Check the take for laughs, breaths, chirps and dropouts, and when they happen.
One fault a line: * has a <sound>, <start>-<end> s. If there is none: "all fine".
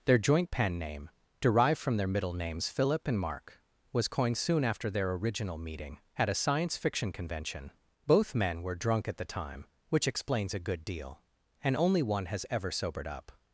all fine